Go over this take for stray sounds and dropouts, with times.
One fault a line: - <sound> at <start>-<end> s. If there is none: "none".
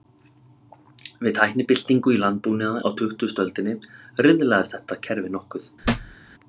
- thud at 5.8-6.2 s